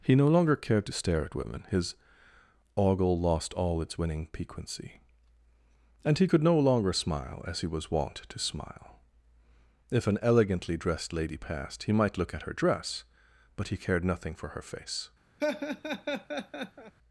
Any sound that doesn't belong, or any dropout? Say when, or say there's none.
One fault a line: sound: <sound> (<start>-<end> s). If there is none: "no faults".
sound: laugh (15.4-16.9 s)